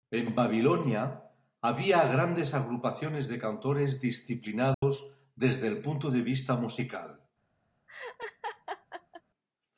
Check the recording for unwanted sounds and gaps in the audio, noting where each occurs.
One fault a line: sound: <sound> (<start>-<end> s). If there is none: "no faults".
sound: dropout (4.7-4.8 s)
sound: laugh (7.9-9.2 s)